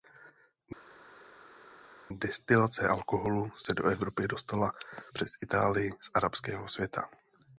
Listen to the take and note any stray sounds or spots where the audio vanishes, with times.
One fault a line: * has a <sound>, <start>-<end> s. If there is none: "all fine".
all fine